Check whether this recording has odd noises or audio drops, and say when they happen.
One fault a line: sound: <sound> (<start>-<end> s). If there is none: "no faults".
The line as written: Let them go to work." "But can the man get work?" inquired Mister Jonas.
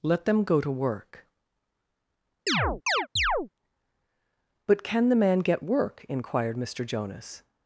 sound: chirp (2.5-3.5 s)